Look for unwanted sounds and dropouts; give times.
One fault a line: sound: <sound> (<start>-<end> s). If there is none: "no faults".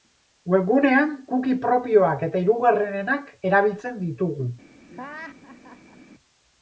sound: laugh (4.9-6.0 s)